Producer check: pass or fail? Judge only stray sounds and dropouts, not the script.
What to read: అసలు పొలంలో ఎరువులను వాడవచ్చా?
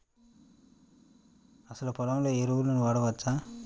pass